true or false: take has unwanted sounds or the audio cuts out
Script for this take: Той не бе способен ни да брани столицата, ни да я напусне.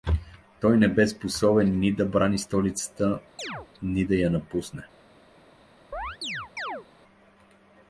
true